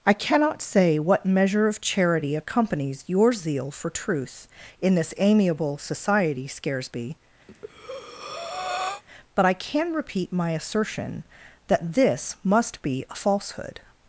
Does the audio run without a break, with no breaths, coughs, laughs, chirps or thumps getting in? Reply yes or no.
no